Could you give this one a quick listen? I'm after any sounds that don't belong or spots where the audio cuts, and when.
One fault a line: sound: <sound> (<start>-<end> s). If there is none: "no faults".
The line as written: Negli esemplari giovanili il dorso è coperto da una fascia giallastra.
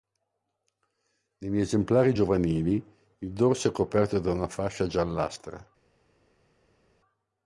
no faults